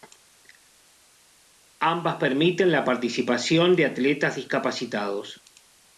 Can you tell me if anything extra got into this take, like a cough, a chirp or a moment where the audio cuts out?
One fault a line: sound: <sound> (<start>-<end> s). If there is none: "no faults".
no faults